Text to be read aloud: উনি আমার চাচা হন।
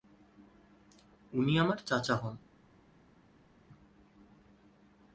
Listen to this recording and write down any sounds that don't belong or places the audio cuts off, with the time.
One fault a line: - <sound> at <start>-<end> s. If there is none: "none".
none